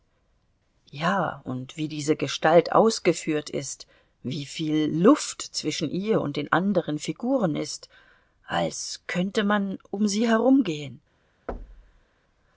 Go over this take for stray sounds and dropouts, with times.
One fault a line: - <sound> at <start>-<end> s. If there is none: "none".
- thud at 11.5-12.1 s